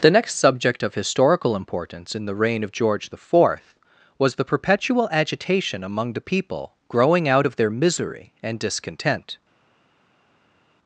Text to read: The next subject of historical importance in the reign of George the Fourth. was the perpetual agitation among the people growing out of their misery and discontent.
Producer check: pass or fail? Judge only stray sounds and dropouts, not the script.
pass